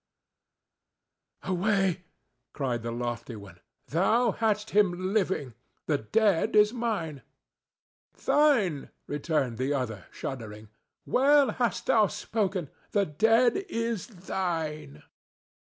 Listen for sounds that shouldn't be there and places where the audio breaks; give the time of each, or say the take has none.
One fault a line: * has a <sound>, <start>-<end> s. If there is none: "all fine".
all fine